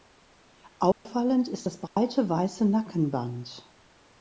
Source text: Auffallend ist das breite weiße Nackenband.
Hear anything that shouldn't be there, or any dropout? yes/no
yes